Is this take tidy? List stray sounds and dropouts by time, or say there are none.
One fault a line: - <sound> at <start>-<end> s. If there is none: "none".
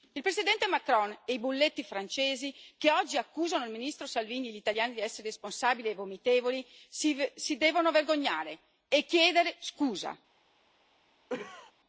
- cough at 11.3-11.7 s